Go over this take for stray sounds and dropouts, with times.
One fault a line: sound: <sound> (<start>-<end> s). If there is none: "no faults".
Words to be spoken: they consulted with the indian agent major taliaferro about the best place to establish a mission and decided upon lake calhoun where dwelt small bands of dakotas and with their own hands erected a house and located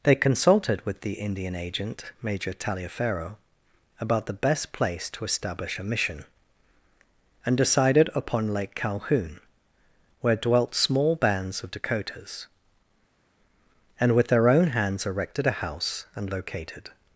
no faults